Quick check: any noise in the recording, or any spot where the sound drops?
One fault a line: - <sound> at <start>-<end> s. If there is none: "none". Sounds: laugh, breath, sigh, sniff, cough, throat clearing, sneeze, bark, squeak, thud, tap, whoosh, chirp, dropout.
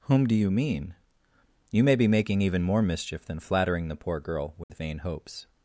- dropout at 4.6-4.7 s